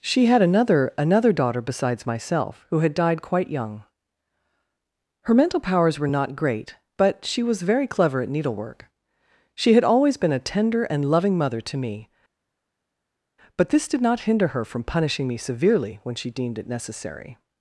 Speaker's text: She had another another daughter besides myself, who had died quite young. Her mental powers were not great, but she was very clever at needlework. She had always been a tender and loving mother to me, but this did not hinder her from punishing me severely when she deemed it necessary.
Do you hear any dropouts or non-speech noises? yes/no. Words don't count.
no